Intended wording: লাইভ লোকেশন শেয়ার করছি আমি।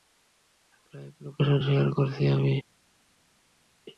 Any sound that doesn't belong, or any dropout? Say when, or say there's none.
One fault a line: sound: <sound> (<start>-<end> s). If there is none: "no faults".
no faults